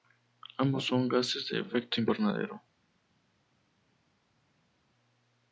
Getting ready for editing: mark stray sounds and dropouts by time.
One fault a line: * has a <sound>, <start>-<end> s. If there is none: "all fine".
all fine